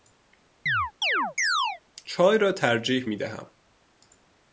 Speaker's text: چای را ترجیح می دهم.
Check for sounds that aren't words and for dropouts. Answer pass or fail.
fail